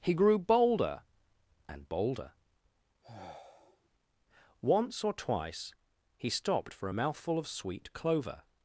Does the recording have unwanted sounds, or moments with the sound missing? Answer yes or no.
yes